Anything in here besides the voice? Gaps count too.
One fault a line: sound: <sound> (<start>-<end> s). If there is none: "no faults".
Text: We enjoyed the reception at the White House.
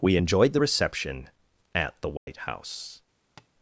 sound: dropout (2.2-2.3 s)
sound: tap (3.4-3.5 s)